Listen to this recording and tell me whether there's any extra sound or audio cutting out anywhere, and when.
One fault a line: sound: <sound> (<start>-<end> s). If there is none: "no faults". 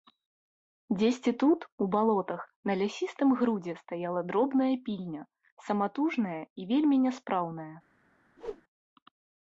sound: whoosh (8.4-8.6 s)